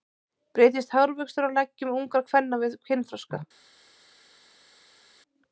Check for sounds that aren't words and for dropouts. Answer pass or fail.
pass